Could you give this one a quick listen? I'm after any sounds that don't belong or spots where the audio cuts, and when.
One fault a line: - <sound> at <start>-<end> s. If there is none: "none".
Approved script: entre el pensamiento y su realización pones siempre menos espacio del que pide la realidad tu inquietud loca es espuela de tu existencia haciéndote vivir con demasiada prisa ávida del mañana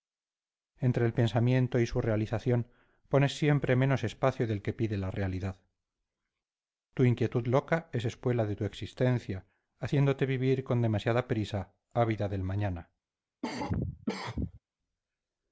- cough at 13.4-14.6 s